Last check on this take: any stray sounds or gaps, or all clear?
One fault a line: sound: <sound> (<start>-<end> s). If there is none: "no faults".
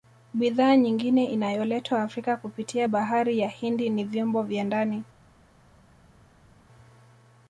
no faults